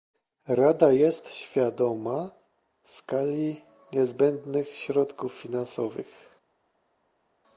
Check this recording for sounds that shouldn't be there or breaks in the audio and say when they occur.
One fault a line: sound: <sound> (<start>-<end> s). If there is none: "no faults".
no faults